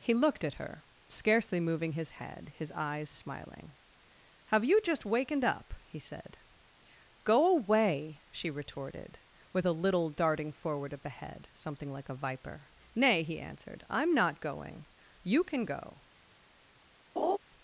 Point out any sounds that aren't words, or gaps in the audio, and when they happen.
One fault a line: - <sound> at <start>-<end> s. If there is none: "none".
- laugh at 17.2-17.4 s